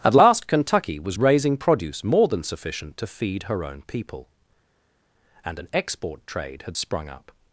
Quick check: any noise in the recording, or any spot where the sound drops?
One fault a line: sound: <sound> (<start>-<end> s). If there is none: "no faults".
no faults